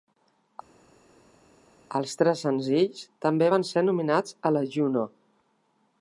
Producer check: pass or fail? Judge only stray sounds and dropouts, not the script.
pass